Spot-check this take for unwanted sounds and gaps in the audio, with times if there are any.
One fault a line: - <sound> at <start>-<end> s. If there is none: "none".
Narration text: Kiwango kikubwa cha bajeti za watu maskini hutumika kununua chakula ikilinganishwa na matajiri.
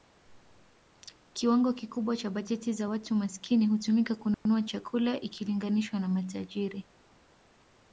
- dropout at 4.3-4.5 s